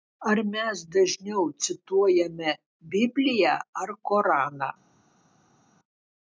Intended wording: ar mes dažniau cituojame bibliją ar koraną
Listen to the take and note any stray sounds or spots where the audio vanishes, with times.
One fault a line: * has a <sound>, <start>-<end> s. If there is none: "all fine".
all fine